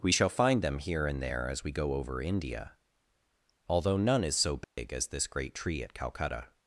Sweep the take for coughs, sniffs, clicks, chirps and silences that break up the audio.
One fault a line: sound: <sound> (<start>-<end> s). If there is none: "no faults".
sound: dropout (4.6-4.8 s)